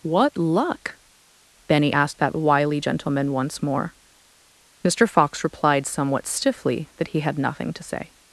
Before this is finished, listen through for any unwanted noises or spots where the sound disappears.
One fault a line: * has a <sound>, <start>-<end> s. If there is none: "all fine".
all fine